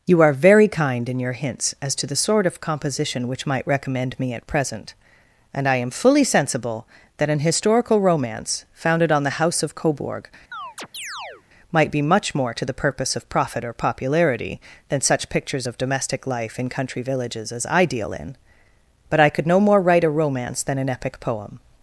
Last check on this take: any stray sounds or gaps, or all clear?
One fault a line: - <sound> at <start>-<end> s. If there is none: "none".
- chirp at 10.5-11.4 s